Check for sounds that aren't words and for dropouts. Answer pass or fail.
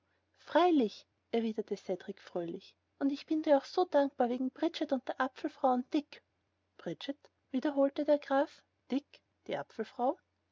pass